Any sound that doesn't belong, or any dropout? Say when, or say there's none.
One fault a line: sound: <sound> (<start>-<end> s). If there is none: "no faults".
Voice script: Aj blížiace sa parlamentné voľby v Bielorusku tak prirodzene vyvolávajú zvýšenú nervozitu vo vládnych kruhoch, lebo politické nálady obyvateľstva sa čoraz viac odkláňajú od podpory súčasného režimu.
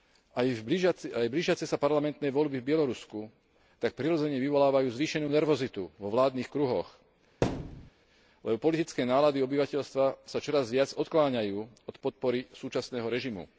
sound: thud (7.4-7.9 s)